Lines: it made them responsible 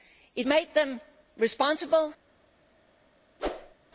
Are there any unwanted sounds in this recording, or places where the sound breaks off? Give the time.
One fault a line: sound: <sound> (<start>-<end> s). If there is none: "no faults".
sound: whoosh (3.4-3.7 s)